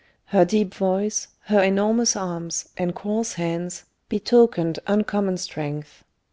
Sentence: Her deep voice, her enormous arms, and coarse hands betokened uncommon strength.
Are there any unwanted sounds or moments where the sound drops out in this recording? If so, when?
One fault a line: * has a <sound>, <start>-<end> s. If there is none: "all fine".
all fine